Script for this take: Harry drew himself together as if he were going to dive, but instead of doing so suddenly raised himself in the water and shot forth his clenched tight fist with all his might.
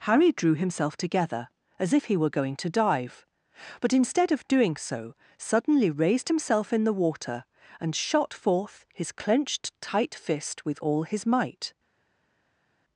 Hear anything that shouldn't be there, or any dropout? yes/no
no